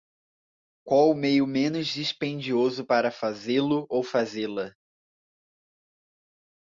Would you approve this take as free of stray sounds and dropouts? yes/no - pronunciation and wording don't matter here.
yes